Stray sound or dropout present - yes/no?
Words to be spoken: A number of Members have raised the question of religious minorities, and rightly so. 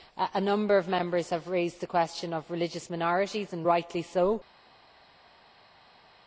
no